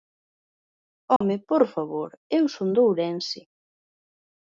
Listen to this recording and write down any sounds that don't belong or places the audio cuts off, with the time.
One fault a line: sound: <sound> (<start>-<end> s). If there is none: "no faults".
sound: dropout (1.2-1.2 s)